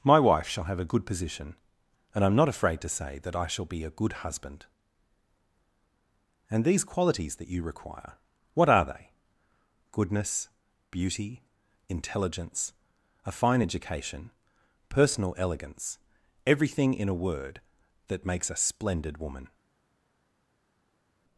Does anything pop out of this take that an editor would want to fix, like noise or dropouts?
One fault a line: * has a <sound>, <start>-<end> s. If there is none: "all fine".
all fine